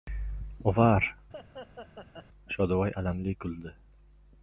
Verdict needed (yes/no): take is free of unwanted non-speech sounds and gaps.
no